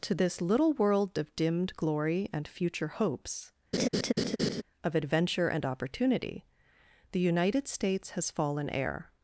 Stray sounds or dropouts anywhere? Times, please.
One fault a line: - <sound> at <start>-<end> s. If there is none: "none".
- laugh at 3.7-4.6 s